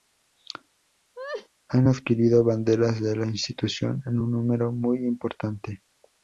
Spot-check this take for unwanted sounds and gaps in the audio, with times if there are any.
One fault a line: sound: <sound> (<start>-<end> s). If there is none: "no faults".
sound: laugh (1.2-1.5 s)